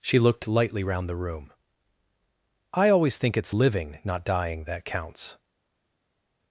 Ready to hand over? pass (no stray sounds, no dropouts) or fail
pass